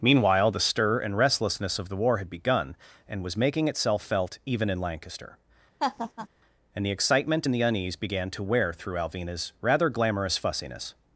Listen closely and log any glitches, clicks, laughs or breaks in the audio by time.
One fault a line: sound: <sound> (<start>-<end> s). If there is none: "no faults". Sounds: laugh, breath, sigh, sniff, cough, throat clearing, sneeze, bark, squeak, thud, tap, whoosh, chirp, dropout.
sound: laugh (5.8-6.3 s)